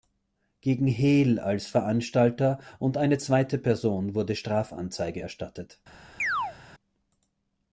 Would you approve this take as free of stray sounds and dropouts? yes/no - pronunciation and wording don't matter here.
no